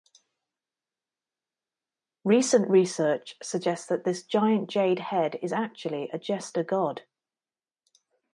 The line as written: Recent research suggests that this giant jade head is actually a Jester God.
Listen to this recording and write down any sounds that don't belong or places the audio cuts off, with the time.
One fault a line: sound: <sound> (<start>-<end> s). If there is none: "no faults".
no faults